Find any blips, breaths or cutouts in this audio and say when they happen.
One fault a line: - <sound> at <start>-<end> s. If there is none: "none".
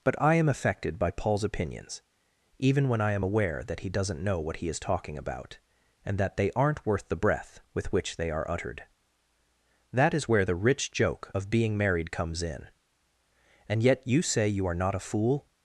none